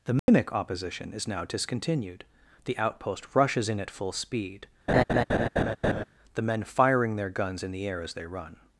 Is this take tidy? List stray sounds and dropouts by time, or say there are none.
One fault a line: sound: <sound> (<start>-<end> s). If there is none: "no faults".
sound: dropout (0.2-0.3 s)
sound: laugh (4.9-6.0 s)